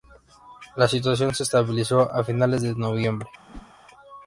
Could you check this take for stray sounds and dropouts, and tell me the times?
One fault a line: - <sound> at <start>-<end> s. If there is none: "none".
- whoosh at 3.4-3.7 s